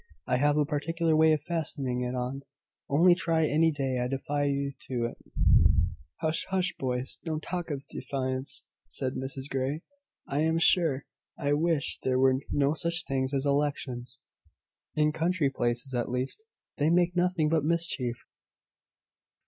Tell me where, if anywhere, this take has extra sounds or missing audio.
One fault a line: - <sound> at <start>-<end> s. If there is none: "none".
none